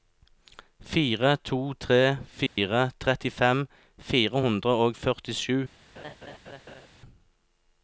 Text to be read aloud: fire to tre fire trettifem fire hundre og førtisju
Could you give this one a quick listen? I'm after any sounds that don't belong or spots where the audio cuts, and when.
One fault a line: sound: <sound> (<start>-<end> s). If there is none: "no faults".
sound: dropout (2.5-2.6 s)
sound: laugh (5.9-6.9 s)